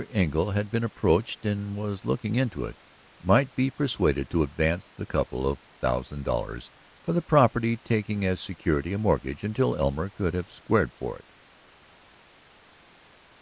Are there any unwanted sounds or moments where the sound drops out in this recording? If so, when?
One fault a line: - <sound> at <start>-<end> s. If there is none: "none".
none